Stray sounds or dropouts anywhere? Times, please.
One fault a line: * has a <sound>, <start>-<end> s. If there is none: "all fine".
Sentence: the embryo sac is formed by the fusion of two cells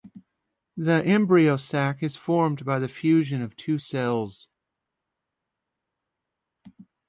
all fine